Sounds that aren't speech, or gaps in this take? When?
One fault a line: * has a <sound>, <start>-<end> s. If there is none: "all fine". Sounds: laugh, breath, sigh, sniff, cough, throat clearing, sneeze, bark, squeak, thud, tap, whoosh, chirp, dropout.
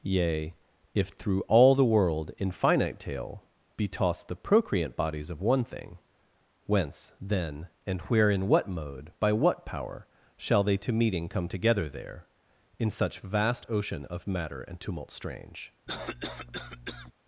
* has a cough, 15.9-17.1 s